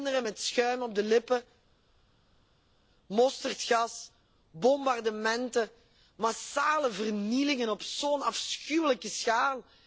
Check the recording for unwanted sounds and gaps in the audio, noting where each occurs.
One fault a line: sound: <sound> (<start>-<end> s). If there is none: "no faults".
no faults